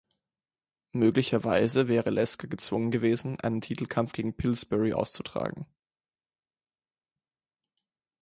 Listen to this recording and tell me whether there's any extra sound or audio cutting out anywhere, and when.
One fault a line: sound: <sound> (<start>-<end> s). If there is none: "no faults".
no faults